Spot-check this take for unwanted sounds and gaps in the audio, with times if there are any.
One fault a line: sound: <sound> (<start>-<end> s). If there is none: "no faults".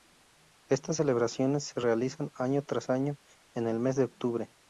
no faults